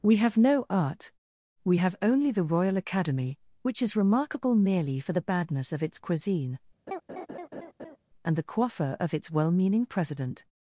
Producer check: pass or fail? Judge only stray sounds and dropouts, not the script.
fail